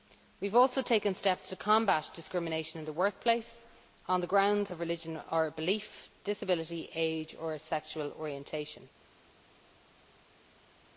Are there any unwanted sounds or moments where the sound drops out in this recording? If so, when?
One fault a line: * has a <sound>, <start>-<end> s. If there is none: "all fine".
all fine